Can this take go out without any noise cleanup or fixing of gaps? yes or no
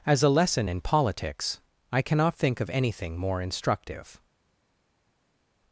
yes